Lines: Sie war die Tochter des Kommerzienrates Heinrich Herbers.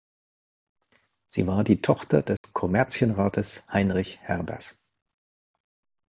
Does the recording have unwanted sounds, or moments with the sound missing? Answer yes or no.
yes